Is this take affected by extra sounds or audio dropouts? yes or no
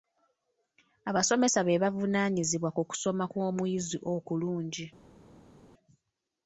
no